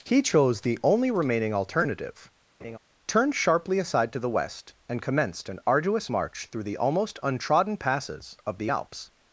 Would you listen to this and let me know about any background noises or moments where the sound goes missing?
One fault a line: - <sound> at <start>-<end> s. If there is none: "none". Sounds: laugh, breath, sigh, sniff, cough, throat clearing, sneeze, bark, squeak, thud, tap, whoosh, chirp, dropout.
- laugh at 2.6-2.8 s